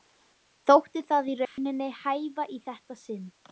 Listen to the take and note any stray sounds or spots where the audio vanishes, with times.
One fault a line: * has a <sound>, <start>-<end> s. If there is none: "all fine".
* has a dropout, 1.4-1.6 s